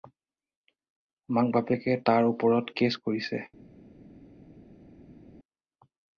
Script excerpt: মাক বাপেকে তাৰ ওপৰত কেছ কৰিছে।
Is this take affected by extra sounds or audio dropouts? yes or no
no